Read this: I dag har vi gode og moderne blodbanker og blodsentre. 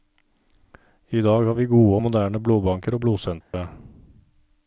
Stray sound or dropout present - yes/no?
yes